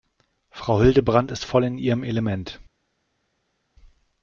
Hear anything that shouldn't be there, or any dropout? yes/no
no